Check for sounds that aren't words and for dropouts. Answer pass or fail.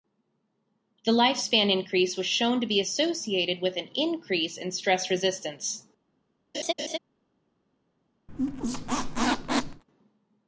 fail